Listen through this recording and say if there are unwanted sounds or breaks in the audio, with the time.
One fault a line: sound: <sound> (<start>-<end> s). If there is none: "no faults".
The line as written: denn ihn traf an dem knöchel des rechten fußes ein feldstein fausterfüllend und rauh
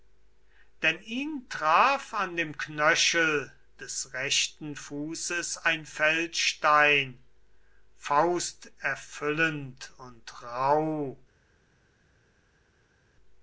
no faults